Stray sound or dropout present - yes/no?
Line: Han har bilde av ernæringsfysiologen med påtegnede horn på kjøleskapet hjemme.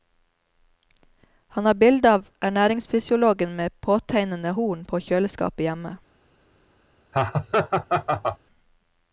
yes